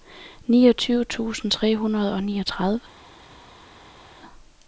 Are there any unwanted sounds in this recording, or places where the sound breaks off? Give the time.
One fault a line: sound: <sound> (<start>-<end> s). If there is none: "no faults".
no faults